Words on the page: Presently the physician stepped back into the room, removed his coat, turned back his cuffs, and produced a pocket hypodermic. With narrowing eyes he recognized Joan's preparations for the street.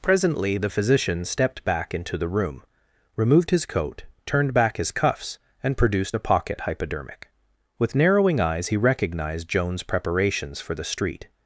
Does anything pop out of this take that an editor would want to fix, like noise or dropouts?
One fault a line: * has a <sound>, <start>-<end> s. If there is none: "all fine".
all fine